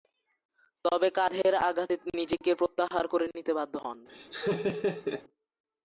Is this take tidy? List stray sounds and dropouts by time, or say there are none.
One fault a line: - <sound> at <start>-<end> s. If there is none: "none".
- laugh at 4.1-5.2 s